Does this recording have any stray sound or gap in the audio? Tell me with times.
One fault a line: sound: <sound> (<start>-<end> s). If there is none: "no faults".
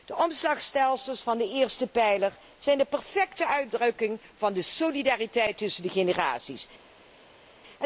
no faults